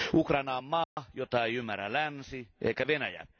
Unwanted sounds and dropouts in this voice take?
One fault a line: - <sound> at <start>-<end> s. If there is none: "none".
- dropout at 0.8-1.0 s